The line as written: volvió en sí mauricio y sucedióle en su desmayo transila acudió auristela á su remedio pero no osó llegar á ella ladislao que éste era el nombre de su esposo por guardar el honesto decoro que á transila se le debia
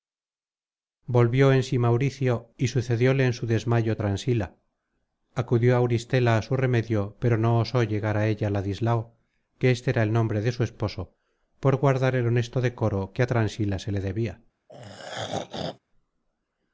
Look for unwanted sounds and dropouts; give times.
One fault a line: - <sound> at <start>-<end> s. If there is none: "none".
- throat clearing at 14.7-15.8 s